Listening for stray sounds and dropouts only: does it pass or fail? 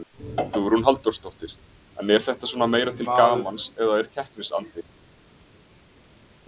pass